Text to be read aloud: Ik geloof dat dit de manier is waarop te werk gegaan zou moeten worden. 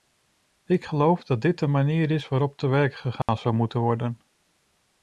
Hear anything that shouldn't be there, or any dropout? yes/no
yes